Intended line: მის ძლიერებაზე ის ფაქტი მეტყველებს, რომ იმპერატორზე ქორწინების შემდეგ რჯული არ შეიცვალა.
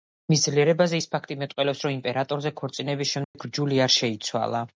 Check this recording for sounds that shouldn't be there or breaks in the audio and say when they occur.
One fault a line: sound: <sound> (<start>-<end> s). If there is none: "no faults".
sound: dropout (3.2-3.3 s)